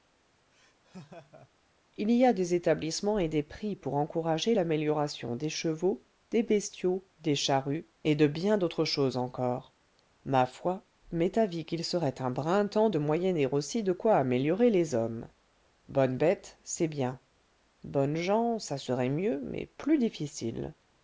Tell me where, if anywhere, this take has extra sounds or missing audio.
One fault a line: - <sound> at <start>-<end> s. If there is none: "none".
- laugh at 0.5-1.5 s